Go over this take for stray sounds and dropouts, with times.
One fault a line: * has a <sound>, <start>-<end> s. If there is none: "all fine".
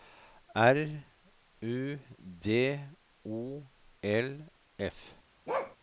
* has a bark, 5.5-5.8 s